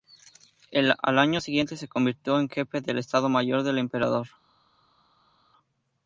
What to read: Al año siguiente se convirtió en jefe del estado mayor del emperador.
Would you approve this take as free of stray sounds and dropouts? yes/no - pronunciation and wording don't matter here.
yes